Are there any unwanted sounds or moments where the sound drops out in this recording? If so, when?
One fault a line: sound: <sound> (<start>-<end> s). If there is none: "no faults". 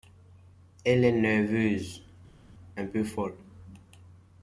no faults